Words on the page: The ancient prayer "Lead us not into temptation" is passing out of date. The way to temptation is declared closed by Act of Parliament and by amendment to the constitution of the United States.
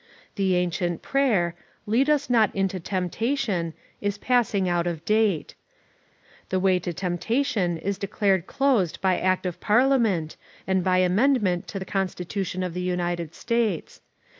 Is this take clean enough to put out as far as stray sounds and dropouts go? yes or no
yes